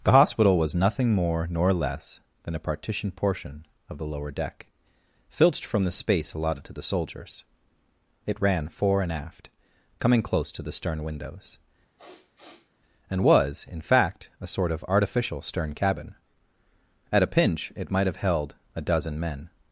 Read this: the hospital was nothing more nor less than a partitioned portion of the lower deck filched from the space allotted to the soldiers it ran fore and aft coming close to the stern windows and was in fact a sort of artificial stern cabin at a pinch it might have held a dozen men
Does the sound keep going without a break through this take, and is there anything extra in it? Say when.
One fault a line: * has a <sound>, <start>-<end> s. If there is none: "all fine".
* has a sniff, 12.0-12.7 s